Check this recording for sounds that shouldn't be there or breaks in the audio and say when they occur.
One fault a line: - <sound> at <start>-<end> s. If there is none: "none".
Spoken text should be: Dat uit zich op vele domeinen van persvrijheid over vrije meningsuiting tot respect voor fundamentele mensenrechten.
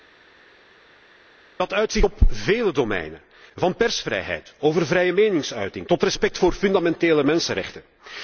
none